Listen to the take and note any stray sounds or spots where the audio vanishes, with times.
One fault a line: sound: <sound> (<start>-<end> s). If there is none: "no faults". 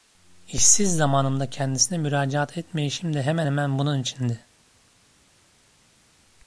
no faults